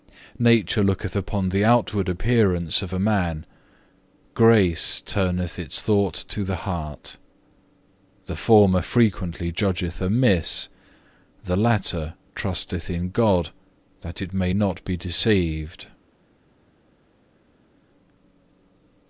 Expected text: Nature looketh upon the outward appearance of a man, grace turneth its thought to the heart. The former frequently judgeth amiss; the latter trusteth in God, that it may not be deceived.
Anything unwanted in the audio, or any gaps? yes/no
no